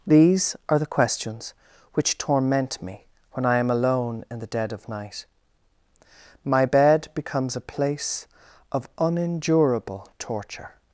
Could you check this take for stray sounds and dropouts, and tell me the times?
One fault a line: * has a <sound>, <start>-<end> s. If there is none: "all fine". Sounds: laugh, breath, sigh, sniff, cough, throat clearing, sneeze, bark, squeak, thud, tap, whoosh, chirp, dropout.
all fine